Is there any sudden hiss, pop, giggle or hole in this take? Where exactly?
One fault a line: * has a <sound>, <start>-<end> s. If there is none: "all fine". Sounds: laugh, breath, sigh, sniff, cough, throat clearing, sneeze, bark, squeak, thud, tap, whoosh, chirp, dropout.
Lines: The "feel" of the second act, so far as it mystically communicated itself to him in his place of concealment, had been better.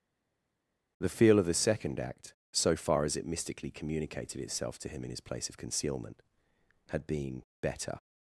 all fine